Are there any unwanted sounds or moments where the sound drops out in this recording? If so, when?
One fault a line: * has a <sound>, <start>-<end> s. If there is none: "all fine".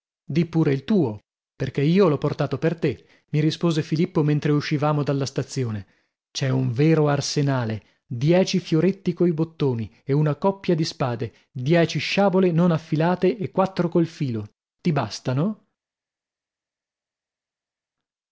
all fine